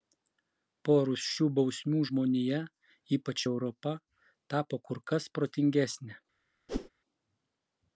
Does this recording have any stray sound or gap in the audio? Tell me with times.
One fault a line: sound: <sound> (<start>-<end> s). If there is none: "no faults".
sound: whoosh (6.7-6.9 s)